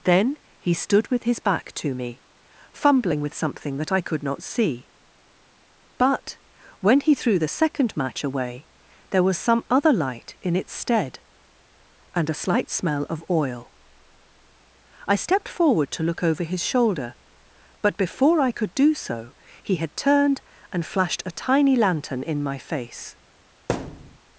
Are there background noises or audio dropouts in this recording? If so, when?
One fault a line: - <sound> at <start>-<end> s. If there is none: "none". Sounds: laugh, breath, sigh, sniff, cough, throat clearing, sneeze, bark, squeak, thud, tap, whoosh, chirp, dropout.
- thud at 23.7-24.2 s